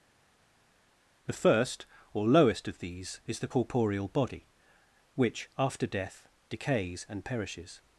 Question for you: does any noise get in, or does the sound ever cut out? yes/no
no